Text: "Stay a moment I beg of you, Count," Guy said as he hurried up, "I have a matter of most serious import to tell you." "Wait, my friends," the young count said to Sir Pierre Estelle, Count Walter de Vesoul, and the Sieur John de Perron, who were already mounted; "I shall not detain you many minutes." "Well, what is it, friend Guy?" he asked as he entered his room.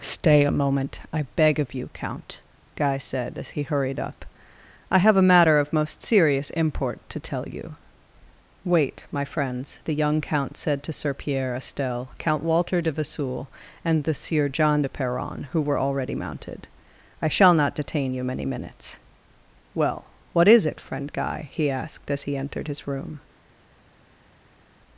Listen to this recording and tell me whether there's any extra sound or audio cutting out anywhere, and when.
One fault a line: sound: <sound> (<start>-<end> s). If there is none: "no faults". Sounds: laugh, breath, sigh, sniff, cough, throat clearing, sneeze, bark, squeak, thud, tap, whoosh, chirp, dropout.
no faults